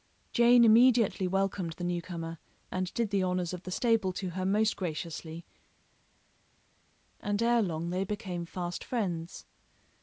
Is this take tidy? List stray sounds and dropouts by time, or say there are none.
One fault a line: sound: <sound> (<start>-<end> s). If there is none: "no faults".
no faults